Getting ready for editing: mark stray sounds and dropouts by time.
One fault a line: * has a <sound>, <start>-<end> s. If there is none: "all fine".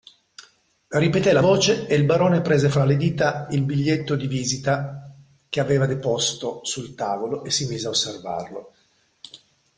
all fine